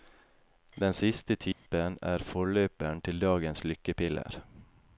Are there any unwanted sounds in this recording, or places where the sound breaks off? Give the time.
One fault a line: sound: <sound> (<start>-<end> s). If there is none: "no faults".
sound: dropout (1.5-1.7 s)